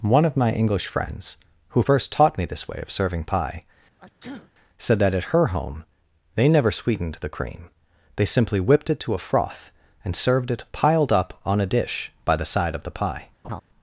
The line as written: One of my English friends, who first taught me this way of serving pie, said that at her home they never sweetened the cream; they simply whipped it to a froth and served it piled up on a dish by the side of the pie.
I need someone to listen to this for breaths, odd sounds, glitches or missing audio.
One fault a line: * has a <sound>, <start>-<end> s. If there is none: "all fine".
* has a sneeze, 4.0-4.5 s
* has a laugh, 13.4-13.6 s